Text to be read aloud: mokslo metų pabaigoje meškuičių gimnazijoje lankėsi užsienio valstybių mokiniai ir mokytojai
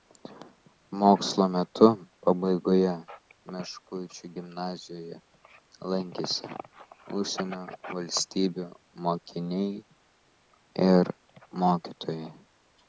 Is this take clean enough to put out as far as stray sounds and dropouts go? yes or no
yes